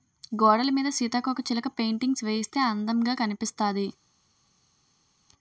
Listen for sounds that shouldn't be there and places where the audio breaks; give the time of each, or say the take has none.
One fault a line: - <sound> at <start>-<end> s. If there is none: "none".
none